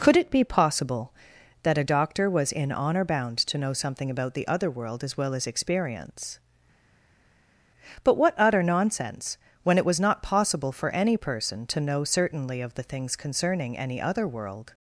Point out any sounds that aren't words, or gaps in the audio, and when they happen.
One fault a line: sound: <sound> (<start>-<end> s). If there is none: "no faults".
no faults